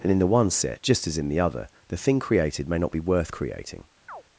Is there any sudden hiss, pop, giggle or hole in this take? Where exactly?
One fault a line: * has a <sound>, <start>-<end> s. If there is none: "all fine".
* has a chirp, 4.1-4.2 s